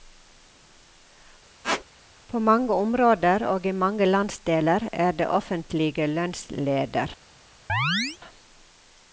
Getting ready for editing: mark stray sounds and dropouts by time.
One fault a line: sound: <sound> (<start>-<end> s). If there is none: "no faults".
sound: squeak (1.6-1.8 s)
sound: chirp (7.7-8.2 s)